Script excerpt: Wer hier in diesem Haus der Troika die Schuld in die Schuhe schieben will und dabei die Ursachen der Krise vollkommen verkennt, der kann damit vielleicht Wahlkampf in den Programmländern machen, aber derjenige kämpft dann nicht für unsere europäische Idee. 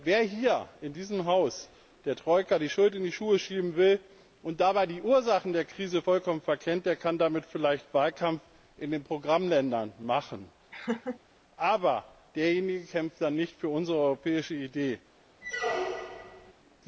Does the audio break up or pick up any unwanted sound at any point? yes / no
yes